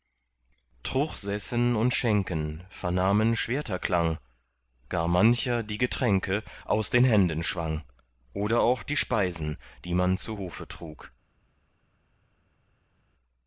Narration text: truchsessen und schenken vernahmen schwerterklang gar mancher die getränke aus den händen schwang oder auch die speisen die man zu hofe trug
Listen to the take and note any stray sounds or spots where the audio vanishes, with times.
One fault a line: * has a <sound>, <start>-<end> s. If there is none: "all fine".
all fine